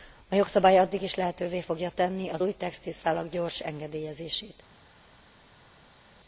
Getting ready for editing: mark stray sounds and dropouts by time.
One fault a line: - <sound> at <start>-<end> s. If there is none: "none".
none